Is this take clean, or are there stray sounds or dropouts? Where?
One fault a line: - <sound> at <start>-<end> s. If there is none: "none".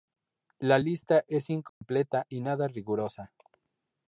- dropout at 1.7-1.8 s